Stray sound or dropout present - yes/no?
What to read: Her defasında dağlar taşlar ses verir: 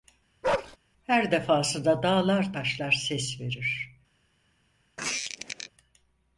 yes